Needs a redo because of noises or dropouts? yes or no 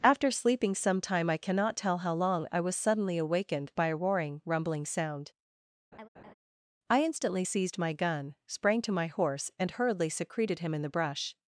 yes